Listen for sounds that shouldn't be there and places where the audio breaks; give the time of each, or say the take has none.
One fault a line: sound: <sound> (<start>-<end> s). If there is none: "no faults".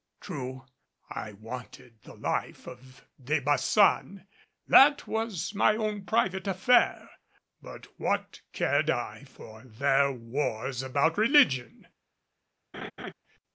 sound: laugh (12.7-13.1 s)